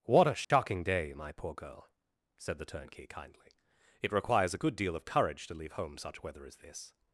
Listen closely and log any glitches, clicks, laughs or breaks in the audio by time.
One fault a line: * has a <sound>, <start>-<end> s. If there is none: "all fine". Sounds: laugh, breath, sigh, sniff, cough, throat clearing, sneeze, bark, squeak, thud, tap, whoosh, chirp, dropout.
* has a dropout, 0.4-0.5 s